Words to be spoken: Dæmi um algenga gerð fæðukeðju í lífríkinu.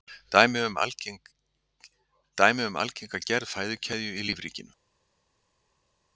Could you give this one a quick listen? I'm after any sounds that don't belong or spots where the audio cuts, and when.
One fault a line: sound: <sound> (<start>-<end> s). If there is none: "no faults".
no faults